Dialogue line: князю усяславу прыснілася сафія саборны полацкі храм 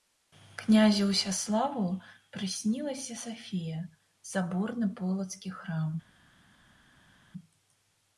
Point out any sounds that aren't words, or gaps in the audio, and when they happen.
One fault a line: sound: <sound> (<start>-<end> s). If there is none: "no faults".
no faults